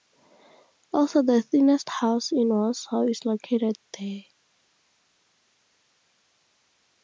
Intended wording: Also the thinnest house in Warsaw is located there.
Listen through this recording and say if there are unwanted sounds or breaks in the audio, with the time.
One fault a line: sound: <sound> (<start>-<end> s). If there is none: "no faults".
no faults